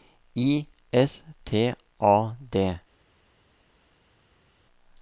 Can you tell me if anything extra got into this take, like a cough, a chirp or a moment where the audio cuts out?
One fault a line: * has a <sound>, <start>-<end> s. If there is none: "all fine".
all fine